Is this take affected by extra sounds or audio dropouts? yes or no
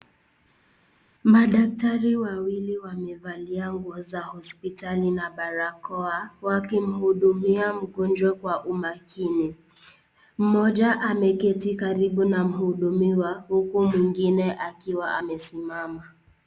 no